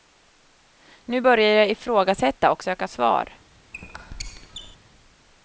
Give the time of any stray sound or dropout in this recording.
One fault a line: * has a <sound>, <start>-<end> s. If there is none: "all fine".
* has a squeak, 3.7-4.8 s